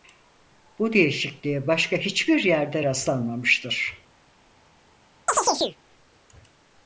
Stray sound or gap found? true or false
true